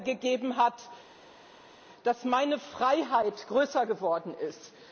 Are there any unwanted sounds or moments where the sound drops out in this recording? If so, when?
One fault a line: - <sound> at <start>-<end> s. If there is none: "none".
none